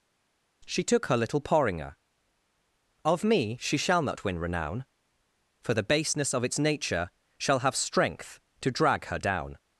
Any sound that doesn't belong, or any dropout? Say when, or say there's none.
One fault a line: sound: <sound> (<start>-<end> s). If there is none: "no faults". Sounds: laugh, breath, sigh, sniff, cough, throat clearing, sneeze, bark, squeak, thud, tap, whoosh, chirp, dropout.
no faults